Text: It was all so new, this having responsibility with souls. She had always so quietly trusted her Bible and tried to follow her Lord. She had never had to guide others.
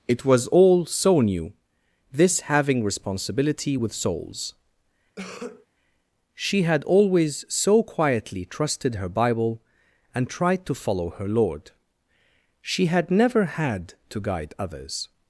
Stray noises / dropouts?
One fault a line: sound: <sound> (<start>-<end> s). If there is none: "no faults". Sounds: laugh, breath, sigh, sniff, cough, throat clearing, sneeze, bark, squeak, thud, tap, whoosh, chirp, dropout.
sound: cough (5.2-5.7 s)